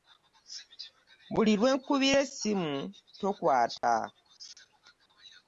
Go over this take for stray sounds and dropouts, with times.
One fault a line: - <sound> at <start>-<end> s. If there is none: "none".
- dropout at 3.8-3.8 s